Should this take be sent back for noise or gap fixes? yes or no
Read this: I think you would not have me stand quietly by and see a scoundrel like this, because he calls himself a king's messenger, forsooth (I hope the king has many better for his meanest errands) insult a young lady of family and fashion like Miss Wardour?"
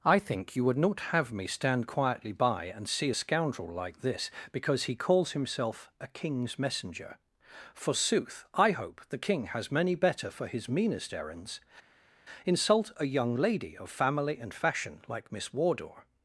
no